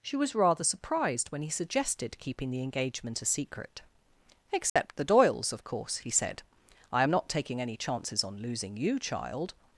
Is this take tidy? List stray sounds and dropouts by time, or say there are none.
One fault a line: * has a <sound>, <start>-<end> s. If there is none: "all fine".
* has a dropout, 4.7-4.8 s